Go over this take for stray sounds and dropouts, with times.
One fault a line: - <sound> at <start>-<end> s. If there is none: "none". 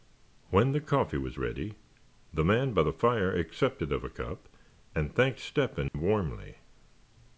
- dropout at 5.9-5.9 s